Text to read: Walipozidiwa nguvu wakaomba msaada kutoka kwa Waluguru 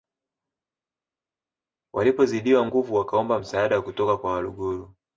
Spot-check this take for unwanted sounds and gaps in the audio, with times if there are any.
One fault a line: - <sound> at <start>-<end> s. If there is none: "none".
none